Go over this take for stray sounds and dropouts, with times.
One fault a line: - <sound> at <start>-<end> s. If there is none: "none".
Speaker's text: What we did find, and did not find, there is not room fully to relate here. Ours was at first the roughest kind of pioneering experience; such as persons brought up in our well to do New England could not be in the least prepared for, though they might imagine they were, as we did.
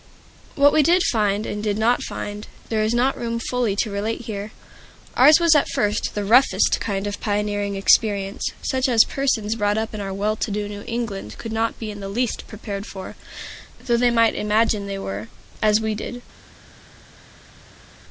none